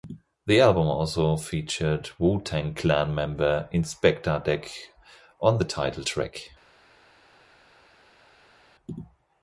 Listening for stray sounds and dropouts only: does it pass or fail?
pass